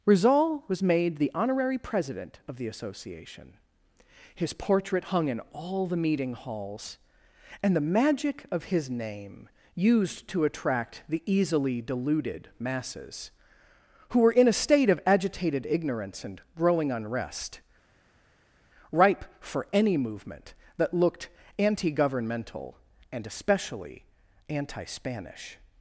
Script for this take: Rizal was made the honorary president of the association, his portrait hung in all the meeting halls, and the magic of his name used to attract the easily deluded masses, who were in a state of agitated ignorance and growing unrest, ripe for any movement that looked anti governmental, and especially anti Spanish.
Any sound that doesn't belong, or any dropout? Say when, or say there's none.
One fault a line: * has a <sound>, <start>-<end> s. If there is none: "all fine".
all fine